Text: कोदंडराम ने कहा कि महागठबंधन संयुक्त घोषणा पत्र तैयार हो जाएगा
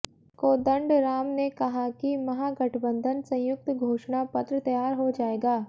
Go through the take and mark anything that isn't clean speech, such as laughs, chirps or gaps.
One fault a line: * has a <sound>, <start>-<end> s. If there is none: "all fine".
all fine